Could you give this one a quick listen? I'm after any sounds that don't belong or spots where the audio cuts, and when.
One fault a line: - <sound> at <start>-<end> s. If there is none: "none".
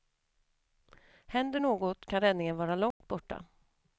- dropout at 2.9-3.0 s